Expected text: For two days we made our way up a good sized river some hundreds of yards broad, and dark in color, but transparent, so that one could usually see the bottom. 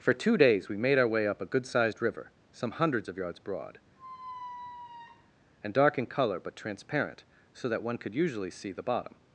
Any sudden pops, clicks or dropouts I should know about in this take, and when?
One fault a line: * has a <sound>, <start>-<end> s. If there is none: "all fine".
* has a squeak, 4.0-5.3 s